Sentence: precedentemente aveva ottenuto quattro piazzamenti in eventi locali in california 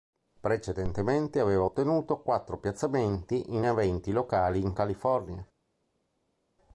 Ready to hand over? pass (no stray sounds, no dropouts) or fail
pass